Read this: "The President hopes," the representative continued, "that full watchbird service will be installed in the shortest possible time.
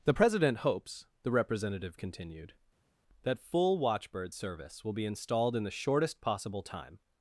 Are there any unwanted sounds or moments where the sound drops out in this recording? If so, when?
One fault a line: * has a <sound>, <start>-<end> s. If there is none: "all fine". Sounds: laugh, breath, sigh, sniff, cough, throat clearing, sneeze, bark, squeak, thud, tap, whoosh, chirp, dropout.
all fine